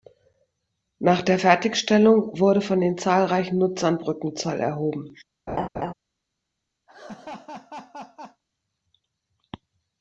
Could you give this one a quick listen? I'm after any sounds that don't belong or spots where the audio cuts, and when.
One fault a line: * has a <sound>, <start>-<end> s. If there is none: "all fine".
* has a laugh, 5.5-5.9 s
* has a laugh, 6.9-8.4 s